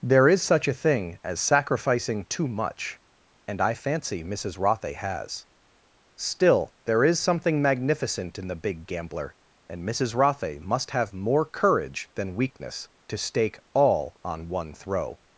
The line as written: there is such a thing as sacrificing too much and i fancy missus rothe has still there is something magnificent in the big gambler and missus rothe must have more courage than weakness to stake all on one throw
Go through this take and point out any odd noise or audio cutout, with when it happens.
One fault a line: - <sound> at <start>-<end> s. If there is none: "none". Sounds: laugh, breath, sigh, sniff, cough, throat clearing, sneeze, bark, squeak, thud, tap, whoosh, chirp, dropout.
none